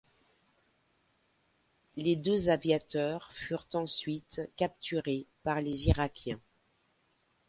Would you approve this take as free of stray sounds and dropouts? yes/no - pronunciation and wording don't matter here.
yes